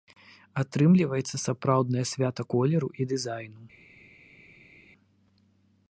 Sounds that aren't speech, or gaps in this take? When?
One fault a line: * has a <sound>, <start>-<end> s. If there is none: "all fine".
all fine